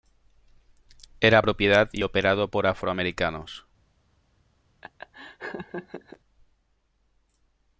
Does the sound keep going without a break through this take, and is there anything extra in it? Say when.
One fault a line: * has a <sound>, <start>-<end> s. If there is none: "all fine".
* has a laugh, 4.8-6.2 s